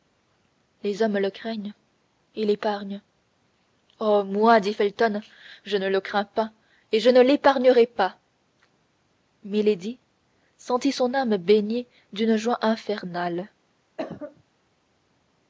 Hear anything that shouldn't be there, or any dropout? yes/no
yes